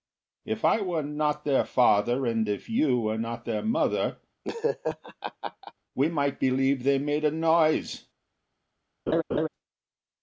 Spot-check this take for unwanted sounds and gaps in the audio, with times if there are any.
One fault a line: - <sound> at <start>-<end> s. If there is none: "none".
- laugh at 4.4-5.7 s
- laugh at 9.1-9.5 s